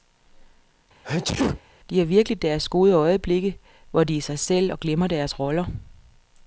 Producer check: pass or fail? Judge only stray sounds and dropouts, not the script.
fail